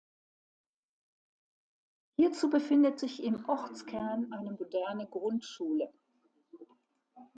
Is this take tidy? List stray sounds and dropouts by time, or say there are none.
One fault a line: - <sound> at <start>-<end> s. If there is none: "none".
none